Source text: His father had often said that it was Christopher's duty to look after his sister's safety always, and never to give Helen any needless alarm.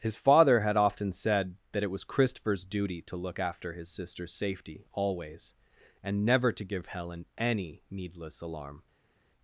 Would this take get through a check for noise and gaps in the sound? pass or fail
pass